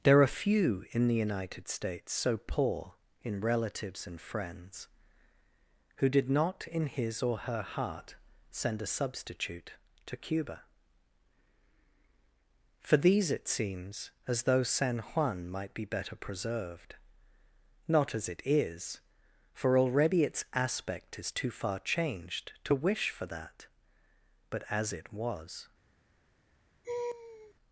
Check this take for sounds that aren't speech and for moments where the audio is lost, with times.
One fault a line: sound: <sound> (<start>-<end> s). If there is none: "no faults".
sound: laugh (26.8-27.5 s)